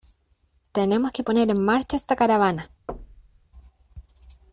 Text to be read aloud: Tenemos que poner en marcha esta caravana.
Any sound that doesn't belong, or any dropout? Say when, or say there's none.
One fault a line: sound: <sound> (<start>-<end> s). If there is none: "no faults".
sound: thud (2.9-3.5 s)